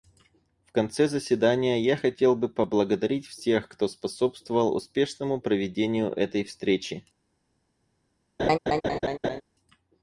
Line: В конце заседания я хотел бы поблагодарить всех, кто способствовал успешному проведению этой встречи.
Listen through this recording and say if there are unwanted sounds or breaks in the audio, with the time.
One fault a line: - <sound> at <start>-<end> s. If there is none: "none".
- laugh at 8.4-9.4 s